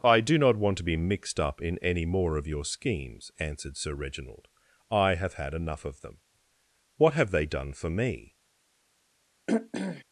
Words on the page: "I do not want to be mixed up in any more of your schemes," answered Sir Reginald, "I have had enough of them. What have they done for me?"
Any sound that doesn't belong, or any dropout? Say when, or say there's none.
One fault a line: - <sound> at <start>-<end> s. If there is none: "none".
- throat clearing at 9.5-10.0 s